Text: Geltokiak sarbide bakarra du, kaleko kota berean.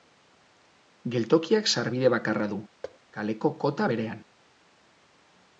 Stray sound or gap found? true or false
true